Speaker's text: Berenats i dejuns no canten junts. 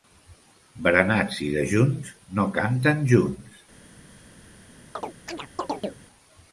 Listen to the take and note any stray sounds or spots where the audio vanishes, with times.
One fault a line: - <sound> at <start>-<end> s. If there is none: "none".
- chirp at 4.9-6.0 s